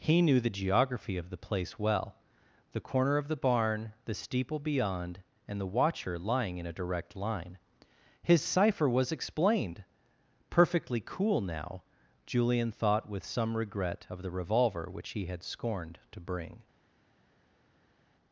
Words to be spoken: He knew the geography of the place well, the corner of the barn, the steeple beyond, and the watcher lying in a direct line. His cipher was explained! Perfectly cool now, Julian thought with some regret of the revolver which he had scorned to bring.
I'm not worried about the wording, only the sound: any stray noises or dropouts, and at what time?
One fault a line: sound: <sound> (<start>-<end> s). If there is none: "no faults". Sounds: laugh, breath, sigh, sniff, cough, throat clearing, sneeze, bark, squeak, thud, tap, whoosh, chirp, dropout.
no faults